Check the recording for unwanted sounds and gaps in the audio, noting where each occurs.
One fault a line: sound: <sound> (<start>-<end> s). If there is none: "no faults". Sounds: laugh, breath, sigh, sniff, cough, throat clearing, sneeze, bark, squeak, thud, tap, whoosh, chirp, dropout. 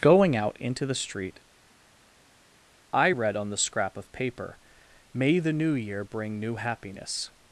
no faults